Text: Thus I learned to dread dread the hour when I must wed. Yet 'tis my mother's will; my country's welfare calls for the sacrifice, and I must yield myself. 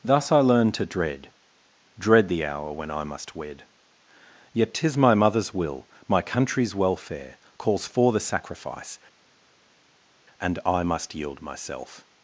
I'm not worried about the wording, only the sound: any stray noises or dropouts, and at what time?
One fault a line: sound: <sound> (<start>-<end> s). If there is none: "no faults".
no faults